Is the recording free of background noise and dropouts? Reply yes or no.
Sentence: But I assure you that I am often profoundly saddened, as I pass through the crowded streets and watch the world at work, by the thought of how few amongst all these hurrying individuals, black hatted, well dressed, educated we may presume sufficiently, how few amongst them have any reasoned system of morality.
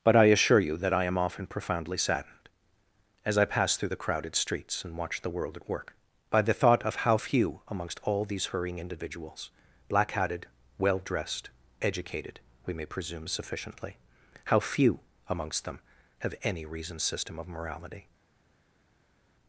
yes